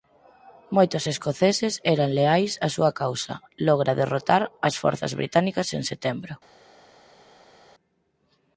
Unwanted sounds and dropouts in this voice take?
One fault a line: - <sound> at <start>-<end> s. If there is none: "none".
none